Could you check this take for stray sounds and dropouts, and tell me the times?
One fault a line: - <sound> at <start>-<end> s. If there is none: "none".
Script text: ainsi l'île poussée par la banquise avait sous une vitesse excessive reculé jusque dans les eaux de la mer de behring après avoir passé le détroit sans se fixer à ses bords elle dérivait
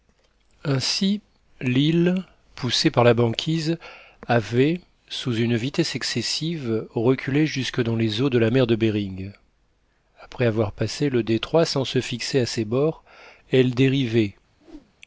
- whoosh at 14.6-14.9 s